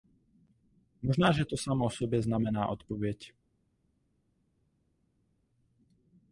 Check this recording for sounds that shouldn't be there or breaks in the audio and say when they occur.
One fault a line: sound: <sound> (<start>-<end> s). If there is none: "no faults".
no faults